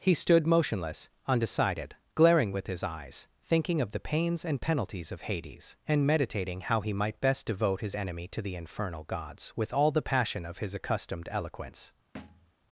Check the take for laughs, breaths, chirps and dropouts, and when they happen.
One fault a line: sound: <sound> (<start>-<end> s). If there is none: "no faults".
sound: thud (12.1-12.5 s)